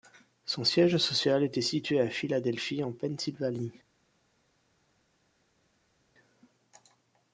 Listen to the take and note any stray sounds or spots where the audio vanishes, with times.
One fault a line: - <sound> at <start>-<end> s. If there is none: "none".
none